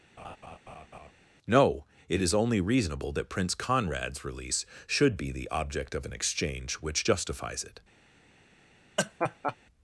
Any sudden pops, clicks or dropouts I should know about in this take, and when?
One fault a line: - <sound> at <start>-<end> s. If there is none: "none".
- laugh at 0.2-1.1 s
- laugh at 9.0-9.6 s